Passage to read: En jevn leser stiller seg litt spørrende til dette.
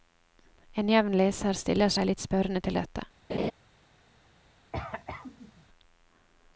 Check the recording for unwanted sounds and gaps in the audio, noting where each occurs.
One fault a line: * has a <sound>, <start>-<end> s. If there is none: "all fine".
* has a laugh, 3.3-3.5 s
* has a cough, 4.7-5.7 s